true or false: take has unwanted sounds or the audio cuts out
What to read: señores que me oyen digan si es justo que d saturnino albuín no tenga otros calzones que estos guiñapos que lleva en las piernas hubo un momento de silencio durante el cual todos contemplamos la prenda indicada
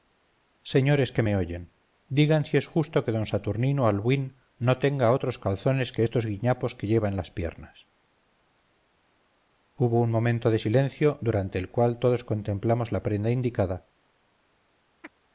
true